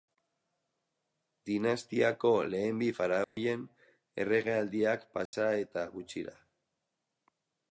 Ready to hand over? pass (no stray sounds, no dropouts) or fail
fail